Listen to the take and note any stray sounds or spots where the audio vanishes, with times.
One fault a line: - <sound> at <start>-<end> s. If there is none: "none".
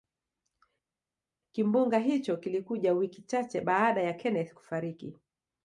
none